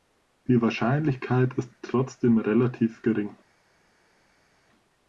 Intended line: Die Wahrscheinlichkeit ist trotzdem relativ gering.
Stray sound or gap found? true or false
false